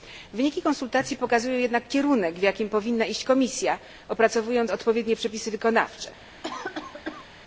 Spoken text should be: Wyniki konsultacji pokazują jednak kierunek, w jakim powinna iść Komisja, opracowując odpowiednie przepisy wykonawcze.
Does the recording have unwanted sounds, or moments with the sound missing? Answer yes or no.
yes